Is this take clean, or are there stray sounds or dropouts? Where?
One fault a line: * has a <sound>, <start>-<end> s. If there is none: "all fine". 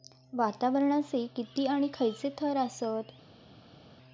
all fine